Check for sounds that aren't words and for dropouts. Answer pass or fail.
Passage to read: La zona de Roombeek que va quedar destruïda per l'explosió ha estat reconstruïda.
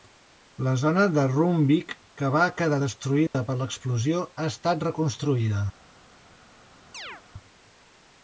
fail